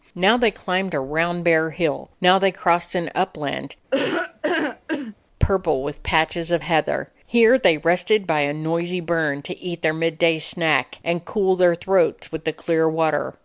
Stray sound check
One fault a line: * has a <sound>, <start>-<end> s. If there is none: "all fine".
* has a laugh, 3.9-5.1 s